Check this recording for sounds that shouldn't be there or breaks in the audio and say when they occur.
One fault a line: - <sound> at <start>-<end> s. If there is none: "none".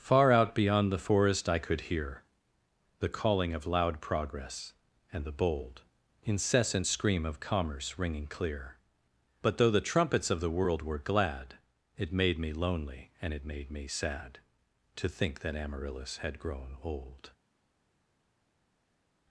none